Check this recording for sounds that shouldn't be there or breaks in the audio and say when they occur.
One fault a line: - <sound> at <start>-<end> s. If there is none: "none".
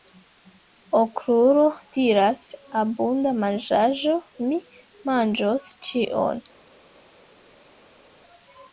none